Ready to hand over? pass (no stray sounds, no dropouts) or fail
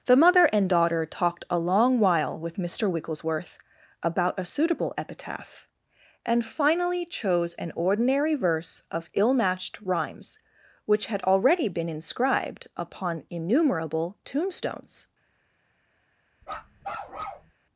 fail